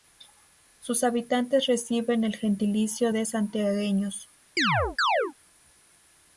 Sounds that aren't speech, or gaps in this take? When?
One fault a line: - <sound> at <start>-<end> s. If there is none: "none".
- chirp at 4.6-5.3 s